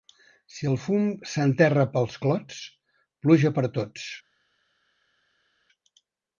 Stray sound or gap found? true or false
false